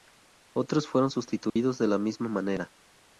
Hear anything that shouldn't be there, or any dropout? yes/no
yes